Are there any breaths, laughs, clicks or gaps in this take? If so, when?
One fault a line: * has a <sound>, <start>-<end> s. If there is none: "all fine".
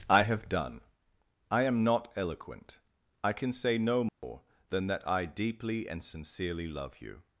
* has a dropout, 4.1-4.2 s